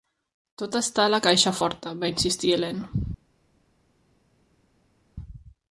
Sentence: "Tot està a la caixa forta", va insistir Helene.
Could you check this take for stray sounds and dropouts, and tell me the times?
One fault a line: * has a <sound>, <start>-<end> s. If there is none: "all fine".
all fine